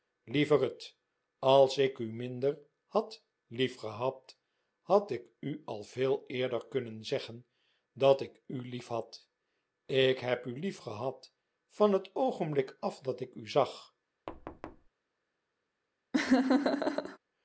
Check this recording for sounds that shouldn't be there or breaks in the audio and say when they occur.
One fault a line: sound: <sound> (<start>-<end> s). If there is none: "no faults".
sound: thud (14.3-14.9 s)
sound: laugh (16.1-17.2 s)